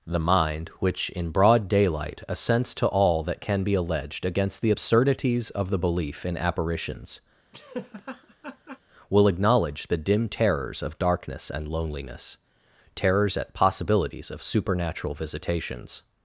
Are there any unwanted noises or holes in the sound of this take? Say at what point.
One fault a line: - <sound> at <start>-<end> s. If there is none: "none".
- laugh at 7.5-8.8 s